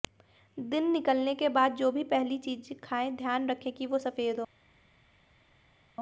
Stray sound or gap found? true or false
false